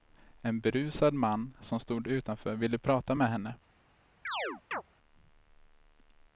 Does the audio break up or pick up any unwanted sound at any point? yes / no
yes